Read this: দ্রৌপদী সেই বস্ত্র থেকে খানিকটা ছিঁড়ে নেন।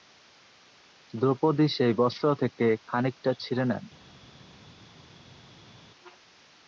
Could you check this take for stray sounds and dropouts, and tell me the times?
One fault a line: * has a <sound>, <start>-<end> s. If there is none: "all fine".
all fine